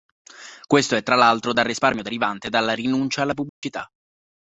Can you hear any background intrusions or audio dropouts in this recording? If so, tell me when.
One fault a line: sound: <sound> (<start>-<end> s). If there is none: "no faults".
sound: dropout (3.5-3.6 s)